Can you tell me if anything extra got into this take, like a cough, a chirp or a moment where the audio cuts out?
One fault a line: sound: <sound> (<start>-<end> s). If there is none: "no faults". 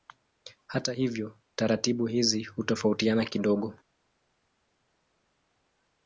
no faults